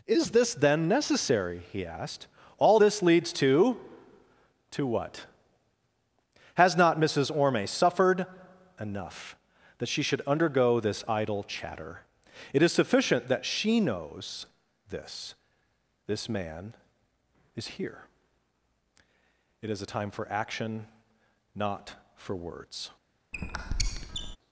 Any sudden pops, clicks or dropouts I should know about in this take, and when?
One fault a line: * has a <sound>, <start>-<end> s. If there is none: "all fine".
* has a squeak, 23.3-24.4 s